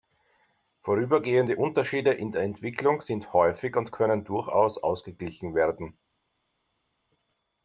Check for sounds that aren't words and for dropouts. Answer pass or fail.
pass